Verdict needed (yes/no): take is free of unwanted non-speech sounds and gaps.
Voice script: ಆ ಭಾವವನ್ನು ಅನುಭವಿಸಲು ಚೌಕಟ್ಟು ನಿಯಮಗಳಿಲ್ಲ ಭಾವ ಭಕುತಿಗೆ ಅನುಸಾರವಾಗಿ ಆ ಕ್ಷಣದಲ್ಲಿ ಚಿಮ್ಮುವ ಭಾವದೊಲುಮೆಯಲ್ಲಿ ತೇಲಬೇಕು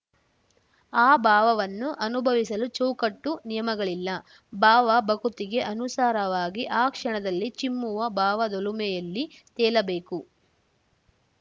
yes